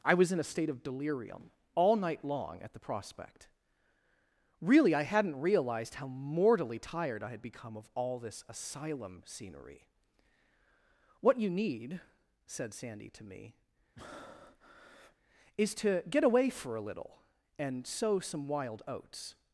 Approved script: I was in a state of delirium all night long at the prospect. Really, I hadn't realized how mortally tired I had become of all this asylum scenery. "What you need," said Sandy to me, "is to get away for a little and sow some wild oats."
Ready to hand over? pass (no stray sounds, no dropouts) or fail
fail